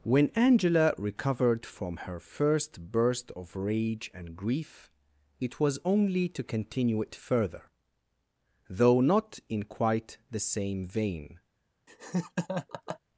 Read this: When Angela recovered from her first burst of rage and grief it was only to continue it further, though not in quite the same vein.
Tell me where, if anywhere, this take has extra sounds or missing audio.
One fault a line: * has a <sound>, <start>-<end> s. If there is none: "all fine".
* has a laugh, 11.9-13.0 s